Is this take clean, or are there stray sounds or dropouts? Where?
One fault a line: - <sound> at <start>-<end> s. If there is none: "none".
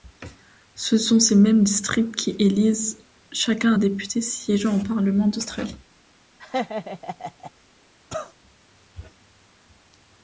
- laugh at 6.4-7.5 s
- cough at 8.1-8.3 s